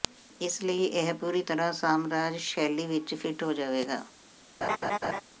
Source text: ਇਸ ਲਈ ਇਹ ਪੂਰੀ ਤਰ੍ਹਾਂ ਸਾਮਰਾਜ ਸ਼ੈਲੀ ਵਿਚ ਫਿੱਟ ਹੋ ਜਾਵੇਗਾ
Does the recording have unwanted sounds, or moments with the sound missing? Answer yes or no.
yes